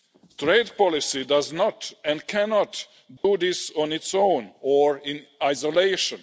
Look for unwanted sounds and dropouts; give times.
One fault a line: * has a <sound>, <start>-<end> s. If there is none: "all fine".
* has a dropout, 3.2-3.2 s